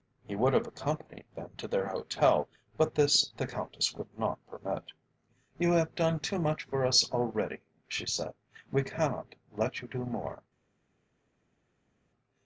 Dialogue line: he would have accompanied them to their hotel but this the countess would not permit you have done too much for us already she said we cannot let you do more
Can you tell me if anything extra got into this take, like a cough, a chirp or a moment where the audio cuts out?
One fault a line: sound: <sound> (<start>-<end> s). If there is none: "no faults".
no faults